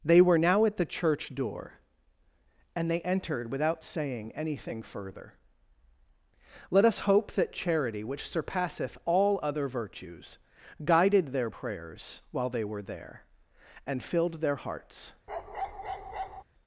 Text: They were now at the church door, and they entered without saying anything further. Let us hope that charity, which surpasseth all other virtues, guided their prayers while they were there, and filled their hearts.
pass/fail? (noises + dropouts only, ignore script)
fail